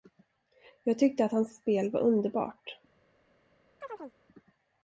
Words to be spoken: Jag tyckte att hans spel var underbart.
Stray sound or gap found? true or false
true